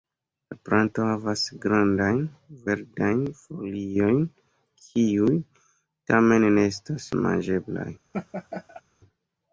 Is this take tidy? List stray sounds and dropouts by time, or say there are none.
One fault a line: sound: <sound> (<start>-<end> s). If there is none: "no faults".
sound: laugh (8.1-8.8 s)